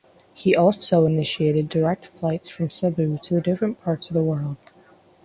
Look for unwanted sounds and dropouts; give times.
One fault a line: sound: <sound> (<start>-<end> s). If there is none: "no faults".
no faults